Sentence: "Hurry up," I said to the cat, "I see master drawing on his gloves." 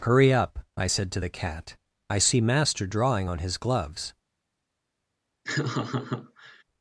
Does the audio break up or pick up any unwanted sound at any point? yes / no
yes